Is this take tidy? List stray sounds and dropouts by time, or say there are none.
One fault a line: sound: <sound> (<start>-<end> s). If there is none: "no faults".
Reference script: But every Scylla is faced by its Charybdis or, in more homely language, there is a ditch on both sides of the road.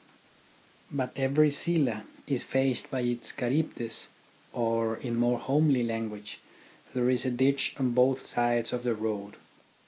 no faults